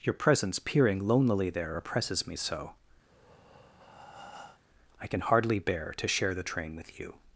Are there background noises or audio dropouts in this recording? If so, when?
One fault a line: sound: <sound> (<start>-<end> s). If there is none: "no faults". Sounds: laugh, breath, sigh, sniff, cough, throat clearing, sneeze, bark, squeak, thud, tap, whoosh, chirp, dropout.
sound: breath (3.0-4.6 s)